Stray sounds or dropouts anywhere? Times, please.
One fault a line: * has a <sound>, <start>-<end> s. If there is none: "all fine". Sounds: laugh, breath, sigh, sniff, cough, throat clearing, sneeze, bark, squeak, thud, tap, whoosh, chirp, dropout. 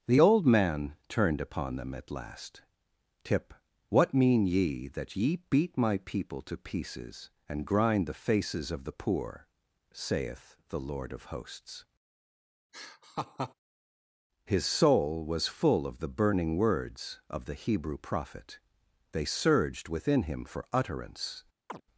* has a laugh, 12.7-13.5 s
* has a chirp, 21.7-21.8 s